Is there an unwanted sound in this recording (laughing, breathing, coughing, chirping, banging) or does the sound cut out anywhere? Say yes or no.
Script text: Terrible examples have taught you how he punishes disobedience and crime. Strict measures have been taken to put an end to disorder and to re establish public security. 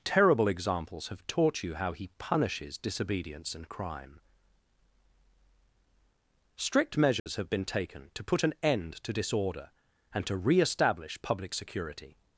yes